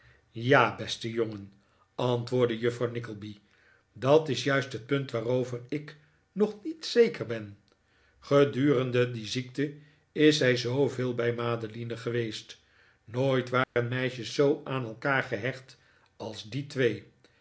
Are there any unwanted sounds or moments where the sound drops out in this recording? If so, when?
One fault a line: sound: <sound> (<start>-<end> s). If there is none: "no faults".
sound: dropout (13.6-13.8 s)